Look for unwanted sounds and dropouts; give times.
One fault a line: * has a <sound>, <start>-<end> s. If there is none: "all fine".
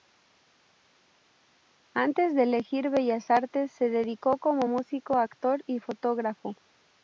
all fine